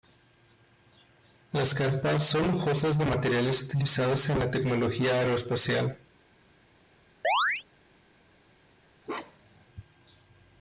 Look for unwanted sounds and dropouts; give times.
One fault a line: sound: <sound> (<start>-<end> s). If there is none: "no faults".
sound: chirp (7.2-7.6 s)
sound: bark (9.0-9.6 s)